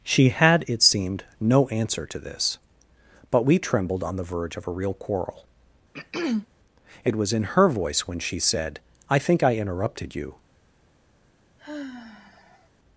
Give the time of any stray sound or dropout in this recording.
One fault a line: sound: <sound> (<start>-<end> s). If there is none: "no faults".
sound: throat clearing (5.9-6.5 s)
sound: sigh (11.6-12.7 s)